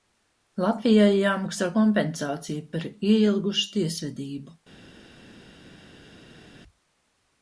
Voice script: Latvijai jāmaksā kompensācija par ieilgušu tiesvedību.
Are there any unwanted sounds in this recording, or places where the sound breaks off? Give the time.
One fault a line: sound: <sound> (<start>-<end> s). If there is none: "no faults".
no faults